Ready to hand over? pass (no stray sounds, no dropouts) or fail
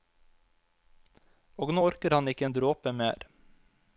pass